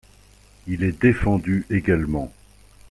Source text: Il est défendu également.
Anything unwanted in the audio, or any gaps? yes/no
no